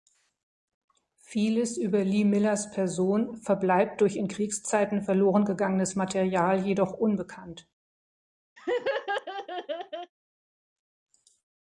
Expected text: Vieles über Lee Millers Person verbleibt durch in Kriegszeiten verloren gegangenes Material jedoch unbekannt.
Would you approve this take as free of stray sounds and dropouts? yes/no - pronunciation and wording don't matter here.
no